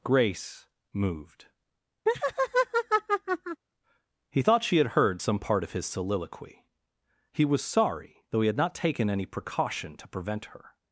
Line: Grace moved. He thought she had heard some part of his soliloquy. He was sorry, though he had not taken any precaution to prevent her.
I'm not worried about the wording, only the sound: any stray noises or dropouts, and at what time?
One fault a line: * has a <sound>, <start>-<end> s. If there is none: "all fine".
* has a laugh, 2.1-3.6 s